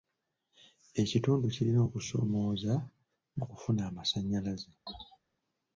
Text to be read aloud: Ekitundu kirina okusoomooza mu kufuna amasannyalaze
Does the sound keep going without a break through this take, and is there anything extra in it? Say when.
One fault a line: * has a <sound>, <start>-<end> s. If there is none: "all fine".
* has a sneeze, 4.9-5.2 s